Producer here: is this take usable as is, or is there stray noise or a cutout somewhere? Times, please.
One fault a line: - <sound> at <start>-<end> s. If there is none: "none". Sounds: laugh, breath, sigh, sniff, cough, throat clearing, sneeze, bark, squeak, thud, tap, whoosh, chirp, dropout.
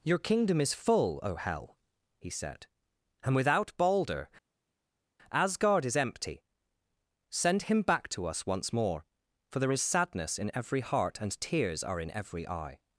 none